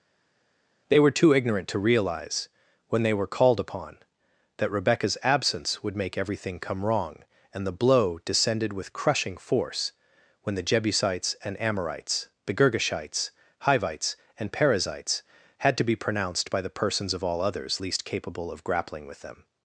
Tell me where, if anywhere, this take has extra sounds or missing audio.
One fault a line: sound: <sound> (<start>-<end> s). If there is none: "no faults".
no faults